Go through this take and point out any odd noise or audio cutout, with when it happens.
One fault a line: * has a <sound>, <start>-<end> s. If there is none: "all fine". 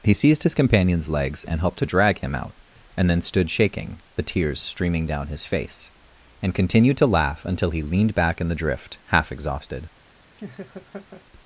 * has a laugh, 10.4-11.2 s